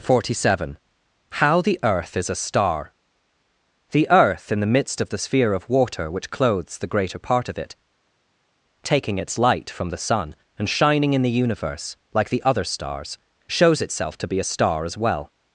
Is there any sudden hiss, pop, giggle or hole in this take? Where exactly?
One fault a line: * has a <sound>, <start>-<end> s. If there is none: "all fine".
all fine